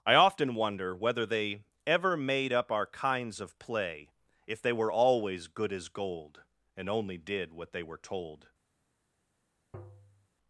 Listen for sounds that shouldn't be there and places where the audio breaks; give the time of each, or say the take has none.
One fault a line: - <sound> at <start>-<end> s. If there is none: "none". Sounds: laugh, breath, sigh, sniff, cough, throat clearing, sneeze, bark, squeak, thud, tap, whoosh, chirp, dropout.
- tap at 9.7-10.3 s